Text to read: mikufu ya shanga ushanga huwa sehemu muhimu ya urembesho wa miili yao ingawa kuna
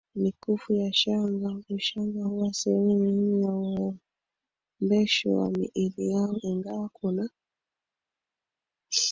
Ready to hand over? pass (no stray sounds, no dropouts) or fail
pass